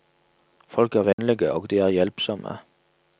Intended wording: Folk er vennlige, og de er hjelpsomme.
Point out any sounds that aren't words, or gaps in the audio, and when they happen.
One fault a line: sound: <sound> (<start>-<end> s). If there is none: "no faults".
sound: dropout (1.1-1.2 s)